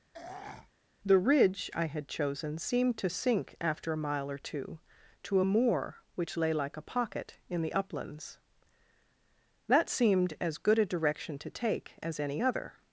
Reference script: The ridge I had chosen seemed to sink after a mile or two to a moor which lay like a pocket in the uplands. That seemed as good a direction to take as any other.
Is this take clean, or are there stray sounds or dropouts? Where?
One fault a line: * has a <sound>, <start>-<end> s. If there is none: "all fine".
* has a throat clearing, 0.1-0.7 s